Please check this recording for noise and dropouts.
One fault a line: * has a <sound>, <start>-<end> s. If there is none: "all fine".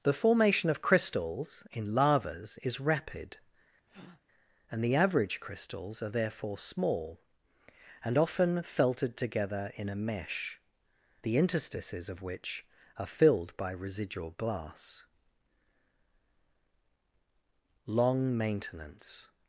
* has a breath, 3.9-4.2 s